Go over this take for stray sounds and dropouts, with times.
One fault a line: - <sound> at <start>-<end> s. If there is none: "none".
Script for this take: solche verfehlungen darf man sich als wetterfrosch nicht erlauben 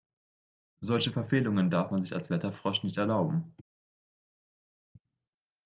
none